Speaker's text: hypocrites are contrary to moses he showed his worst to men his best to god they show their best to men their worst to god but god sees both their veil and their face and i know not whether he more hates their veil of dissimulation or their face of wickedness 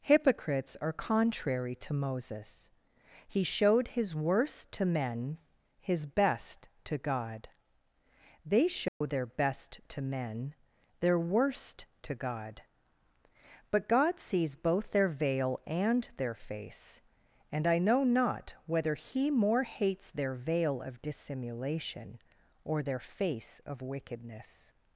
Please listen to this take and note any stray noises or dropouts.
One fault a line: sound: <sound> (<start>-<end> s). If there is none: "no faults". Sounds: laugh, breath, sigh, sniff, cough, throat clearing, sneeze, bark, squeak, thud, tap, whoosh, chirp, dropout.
sound: dropout (8.9-9.0 s)